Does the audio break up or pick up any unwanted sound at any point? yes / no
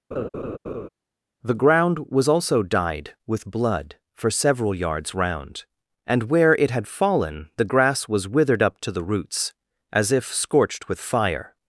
yes